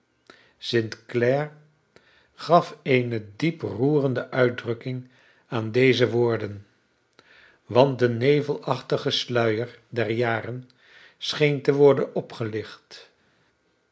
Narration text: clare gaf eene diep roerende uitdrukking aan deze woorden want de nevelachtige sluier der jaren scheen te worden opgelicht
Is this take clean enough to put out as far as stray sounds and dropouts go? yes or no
yes